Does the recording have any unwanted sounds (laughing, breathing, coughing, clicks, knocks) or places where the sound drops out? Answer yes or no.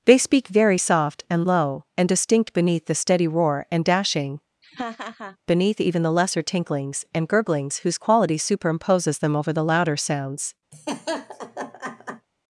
yes